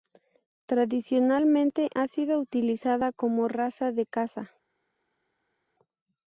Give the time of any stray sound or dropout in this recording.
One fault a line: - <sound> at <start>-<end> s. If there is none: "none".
none